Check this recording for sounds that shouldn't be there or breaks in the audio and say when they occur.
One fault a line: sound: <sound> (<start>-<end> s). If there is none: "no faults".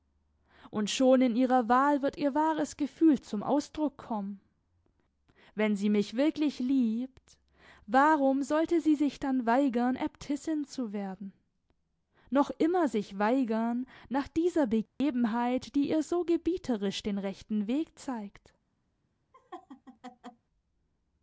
sound: dropout (14.9-15.0 s)
sound: laugh (19.3-20.5 s)